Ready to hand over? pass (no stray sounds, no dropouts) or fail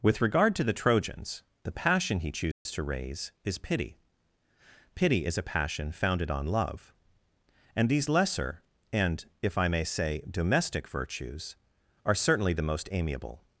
fail